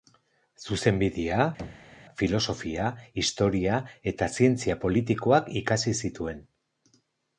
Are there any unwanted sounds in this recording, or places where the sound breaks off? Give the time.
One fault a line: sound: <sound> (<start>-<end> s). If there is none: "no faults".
sound: thud (1.6-2.0 s)